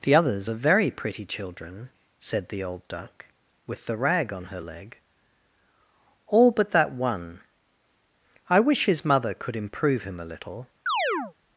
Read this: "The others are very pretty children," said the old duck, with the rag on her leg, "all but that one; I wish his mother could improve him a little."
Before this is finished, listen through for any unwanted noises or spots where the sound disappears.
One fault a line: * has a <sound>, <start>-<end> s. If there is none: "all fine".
* has a chirp, 10.9-11.3 s